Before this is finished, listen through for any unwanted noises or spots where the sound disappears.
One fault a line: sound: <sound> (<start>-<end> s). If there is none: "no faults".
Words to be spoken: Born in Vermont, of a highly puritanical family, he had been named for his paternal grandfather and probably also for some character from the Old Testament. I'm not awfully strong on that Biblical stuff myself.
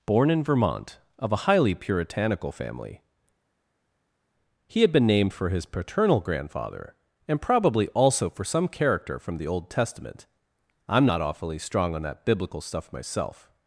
no faults